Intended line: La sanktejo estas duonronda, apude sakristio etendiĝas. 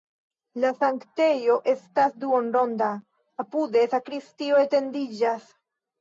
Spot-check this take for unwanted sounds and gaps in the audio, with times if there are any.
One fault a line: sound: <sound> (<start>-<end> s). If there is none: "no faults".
no faults